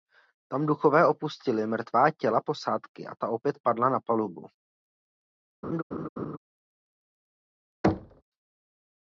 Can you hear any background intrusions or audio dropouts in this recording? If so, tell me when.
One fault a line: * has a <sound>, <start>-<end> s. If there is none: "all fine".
* has a laugh, 5.6-6.4 s
* has a thud, 7.8-8.2 s